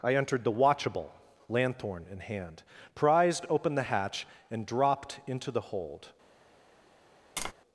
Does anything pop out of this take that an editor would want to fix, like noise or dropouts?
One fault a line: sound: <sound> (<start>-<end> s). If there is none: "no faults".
sound: tap (7.4-7.5 s)